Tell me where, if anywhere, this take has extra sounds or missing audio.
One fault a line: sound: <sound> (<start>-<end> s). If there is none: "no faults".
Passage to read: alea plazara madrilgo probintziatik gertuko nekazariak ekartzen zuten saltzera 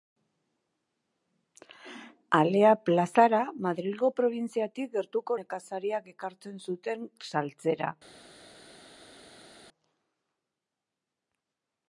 no faults